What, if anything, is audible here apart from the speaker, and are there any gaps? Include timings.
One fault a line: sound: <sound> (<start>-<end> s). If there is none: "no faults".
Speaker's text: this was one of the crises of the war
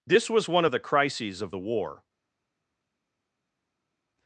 no faults